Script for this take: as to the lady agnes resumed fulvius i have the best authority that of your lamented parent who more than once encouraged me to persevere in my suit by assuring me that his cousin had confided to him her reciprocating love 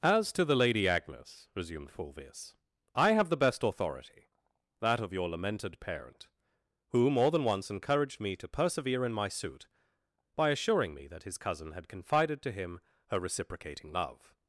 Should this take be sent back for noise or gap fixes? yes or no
no